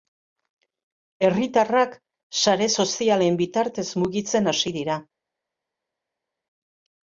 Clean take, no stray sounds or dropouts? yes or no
yes